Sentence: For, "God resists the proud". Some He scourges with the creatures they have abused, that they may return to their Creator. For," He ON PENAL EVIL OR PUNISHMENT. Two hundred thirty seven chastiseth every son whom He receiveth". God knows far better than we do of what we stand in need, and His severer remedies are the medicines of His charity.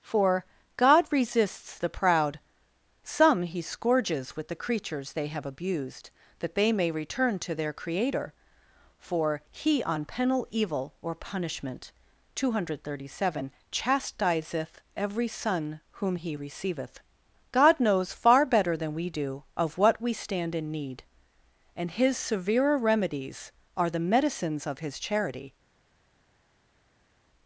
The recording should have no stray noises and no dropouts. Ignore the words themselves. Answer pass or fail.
pass